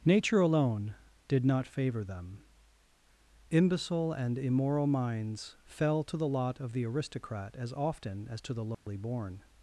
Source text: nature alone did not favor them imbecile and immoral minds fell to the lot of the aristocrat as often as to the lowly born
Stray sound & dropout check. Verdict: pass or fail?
fail